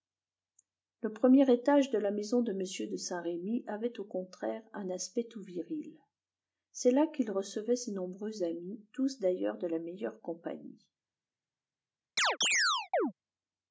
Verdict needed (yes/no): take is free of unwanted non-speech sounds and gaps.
no